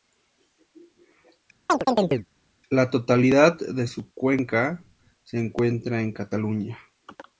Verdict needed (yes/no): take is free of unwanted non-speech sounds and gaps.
no